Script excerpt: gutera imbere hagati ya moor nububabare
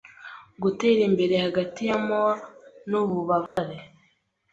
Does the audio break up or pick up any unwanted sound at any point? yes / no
yes